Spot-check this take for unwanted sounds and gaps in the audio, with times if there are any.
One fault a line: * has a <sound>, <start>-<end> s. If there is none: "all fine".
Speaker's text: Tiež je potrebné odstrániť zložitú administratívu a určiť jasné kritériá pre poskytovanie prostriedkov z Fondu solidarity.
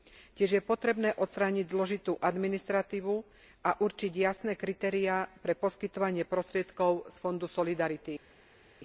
all fine